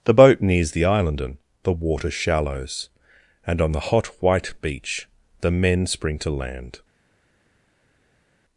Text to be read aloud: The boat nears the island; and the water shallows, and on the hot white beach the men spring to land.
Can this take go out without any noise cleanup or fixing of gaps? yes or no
yes